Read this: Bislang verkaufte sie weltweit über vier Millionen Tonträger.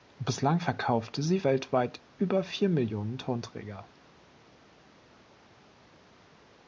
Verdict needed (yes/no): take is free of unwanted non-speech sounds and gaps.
yes